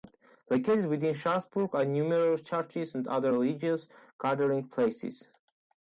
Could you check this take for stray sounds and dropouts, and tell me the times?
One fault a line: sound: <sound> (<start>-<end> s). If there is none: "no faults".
no faults